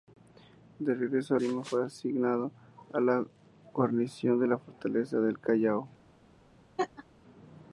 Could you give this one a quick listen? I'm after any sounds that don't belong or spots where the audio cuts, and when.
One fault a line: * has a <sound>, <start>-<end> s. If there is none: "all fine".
* has a laugh, 6.8-7.0 s